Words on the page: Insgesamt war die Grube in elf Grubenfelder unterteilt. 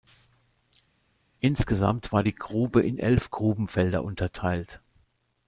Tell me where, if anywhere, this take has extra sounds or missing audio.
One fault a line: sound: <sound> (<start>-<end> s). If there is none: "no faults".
no faults